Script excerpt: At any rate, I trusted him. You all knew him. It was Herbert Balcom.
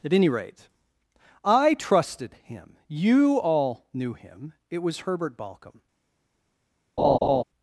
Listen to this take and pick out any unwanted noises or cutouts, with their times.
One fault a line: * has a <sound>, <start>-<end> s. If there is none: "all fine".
* has a laugh, 7.0-7.4 s